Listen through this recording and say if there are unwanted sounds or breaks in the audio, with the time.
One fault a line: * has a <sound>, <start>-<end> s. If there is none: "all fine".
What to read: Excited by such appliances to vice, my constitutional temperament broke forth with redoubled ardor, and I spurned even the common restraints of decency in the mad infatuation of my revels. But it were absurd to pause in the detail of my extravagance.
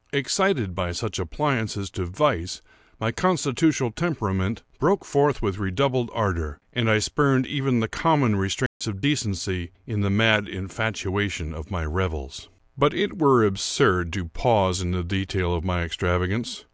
* has a dropout, 8.7-8.8 s